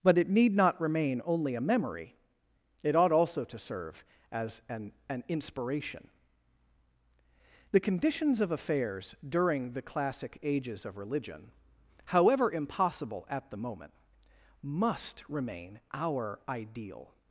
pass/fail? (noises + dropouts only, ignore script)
pass